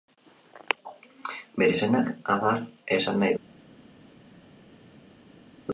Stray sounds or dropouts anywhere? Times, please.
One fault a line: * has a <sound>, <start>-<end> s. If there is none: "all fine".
all fine